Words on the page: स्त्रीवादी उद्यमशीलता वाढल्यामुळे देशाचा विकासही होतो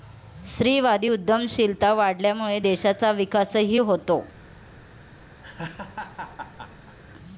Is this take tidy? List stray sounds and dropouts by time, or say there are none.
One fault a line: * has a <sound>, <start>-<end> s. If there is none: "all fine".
* has a laugh, 5.4-7.0 s